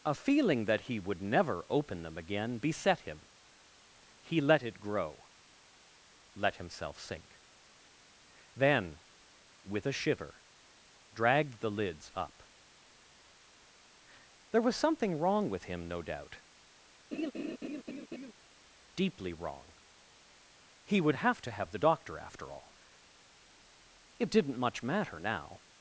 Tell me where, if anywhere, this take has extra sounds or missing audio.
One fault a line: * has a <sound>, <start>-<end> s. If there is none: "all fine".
* has a laugh, 17.1-18.3 s